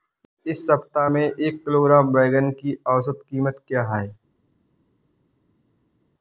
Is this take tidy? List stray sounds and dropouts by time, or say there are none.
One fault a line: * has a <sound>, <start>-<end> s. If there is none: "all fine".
all fine